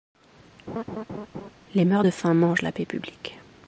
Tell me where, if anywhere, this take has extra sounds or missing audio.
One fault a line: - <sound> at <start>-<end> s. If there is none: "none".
- laugh at 0.7-1.5 s